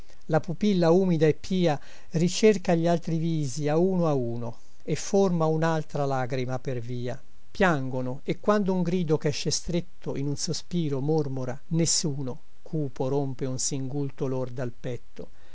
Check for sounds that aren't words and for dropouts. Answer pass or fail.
pass